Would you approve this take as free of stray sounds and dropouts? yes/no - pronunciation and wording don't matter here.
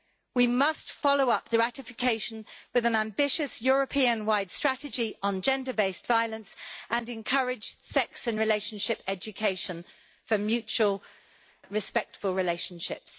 yes